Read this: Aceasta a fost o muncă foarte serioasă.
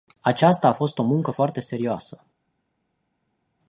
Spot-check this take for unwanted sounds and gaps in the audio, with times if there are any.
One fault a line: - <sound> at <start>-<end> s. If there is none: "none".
none